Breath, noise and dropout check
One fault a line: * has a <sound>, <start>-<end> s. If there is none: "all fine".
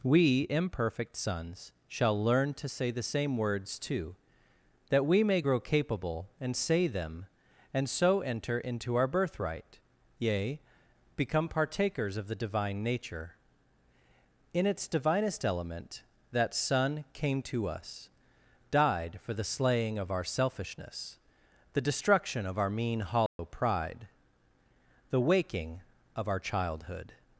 * has a dropout, 23.3-23.4 s